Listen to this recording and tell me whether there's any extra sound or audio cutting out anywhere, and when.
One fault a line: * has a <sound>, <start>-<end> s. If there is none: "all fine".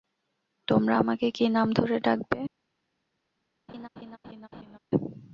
* has a laugh, 3.7-4.8 s